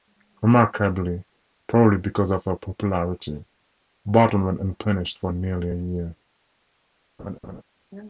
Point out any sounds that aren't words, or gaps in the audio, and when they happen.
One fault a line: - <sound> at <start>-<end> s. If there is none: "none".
- laugh at 7.2-7.6 s